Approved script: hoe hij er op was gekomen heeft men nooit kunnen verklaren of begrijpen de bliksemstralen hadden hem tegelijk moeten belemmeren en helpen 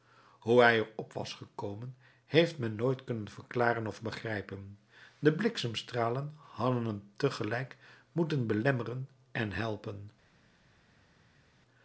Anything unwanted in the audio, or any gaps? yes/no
no